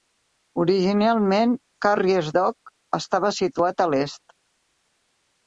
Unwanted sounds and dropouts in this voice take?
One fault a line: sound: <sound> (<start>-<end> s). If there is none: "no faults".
no faults